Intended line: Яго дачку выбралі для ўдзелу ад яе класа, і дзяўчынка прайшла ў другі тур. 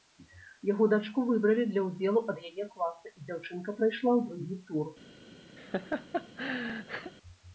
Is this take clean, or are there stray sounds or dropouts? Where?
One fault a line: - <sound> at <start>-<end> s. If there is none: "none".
- laugh at 5.6-7.1 s